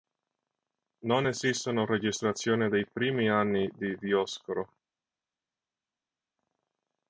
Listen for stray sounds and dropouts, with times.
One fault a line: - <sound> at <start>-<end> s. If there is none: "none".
none